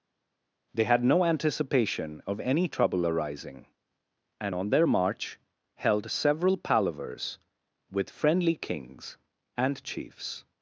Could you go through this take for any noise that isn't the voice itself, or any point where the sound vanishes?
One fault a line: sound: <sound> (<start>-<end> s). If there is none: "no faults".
no faults